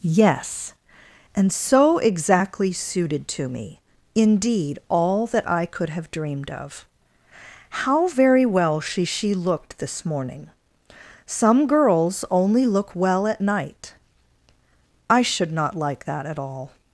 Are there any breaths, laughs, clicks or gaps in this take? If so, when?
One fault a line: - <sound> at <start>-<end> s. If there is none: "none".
none